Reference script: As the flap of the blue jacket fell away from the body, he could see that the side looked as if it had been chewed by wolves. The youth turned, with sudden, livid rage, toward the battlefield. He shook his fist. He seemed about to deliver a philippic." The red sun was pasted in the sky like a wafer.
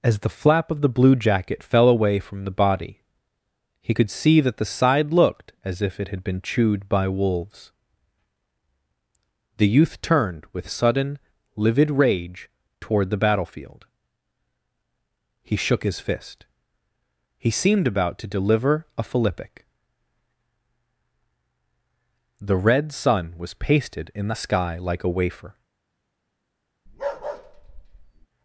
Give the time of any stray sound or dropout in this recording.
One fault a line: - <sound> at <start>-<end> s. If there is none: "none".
- bark at 26.9-28.3 s